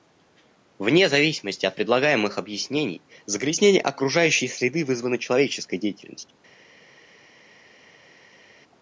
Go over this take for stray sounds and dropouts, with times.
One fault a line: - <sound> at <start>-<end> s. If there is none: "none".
none